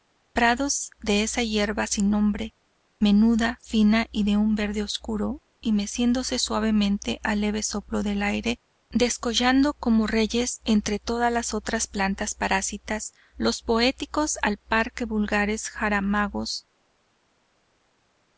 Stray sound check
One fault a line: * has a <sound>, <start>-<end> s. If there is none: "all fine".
all fine